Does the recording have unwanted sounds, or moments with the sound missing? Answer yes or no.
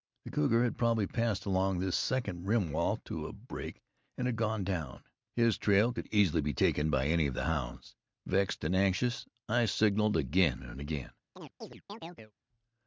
yes